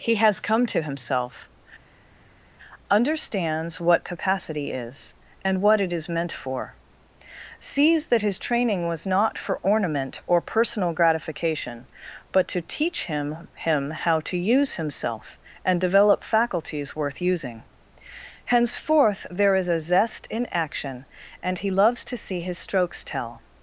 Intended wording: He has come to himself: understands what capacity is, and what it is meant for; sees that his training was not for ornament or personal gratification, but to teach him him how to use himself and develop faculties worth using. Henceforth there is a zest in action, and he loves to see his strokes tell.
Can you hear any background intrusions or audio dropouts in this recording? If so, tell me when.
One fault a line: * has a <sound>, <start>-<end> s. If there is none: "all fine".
all fine